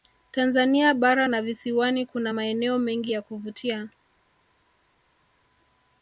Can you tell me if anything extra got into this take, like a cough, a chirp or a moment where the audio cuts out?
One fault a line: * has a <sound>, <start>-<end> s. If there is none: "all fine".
all fine